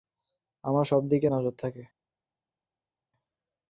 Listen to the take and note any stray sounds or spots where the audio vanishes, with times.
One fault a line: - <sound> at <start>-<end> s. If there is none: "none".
none